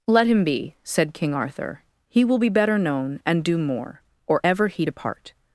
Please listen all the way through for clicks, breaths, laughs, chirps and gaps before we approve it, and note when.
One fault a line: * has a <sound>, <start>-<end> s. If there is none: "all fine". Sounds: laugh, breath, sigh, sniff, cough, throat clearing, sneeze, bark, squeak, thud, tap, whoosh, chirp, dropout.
all fine